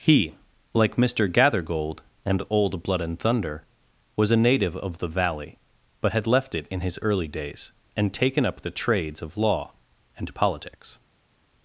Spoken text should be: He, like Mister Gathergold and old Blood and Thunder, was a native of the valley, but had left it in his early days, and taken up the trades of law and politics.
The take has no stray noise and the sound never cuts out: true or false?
true